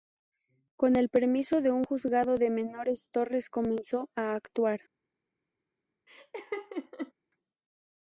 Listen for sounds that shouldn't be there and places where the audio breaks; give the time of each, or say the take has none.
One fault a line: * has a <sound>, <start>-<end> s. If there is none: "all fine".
* has a laugh, 6.1-7.1 s